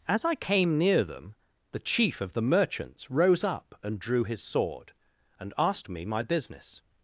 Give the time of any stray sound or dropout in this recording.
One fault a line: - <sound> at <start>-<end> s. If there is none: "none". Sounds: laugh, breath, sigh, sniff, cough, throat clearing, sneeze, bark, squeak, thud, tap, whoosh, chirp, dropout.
none